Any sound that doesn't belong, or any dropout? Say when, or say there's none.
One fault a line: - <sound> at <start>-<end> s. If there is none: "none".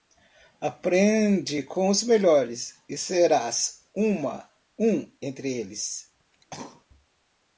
- cough at 6.3-6.9 s